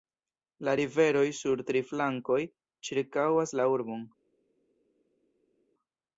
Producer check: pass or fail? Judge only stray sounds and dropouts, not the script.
pass